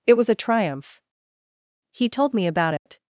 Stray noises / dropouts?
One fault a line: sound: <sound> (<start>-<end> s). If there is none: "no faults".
sound: dropout (2.8-2.9 s)